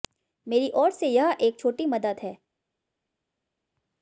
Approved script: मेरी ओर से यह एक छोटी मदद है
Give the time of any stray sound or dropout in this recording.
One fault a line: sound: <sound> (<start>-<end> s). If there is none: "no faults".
no faults